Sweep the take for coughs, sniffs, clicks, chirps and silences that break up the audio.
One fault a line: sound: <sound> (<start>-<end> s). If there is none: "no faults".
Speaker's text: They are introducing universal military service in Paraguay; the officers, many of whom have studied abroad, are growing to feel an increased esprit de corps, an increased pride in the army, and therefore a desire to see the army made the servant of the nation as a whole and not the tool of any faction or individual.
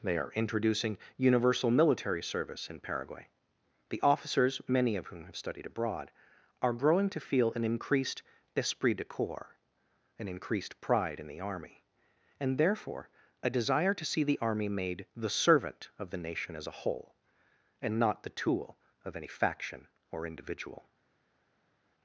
no faults